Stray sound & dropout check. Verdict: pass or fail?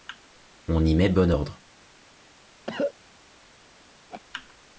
fail